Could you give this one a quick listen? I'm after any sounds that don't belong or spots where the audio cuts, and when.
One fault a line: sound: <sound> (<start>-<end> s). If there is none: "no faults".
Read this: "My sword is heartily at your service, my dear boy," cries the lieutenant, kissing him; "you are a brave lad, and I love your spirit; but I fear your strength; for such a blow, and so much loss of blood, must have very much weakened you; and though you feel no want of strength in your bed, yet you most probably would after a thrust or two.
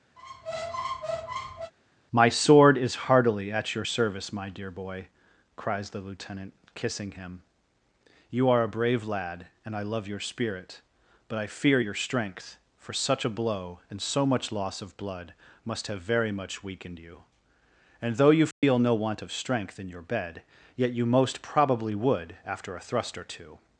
sound: squeak (0.2-1.7 s)
sound: dropout (18.5-18.6 s)